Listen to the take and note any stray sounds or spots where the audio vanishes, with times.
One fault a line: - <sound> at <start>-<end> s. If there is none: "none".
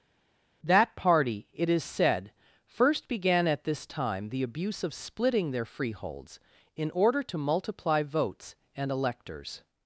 none